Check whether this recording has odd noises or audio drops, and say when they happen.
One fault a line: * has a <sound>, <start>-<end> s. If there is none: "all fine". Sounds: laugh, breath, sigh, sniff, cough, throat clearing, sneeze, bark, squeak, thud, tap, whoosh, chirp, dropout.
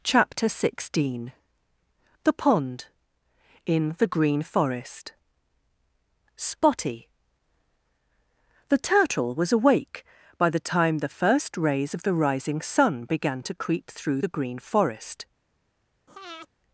* has a breath, 16.1-16.5 s